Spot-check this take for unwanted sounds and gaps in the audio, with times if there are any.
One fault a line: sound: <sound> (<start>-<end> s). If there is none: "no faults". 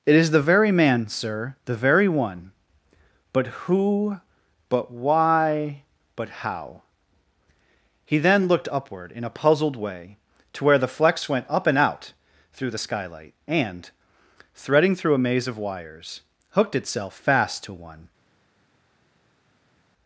no faults